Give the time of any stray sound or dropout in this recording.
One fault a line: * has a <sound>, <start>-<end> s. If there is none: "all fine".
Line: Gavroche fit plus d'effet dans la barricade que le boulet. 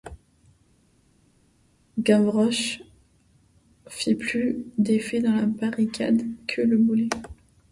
all fine